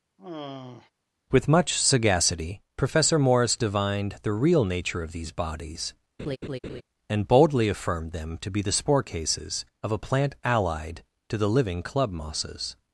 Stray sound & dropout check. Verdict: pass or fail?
fail